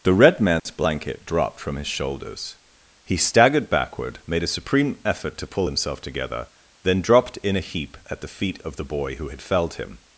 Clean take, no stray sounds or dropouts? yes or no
no